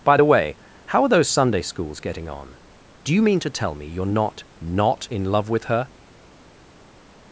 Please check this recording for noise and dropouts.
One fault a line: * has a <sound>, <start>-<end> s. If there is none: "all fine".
all fine